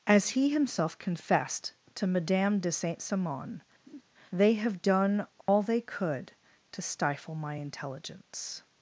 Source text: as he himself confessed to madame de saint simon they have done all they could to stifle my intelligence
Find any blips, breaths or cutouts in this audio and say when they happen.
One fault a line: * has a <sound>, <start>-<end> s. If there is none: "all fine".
* has a laugh, 3.9-4.0 s
* has a dropout, 5.4-5.5 s